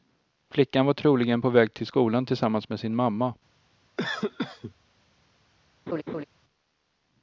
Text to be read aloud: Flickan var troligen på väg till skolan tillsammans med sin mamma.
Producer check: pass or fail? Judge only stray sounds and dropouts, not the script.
fail